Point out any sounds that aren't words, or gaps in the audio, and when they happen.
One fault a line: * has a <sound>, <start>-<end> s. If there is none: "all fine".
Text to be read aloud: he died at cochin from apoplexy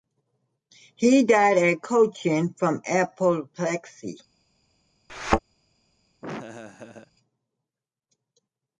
* has a thud, 5.1-5.4 s
* has a laugh, 6.2-7.1 s